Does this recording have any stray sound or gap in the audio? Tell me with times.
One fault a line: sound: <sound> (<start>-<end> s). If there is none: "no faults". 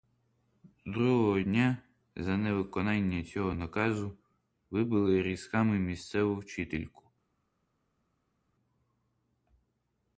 no faults